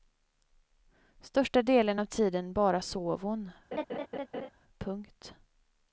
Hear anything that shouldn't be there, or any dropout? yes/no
yes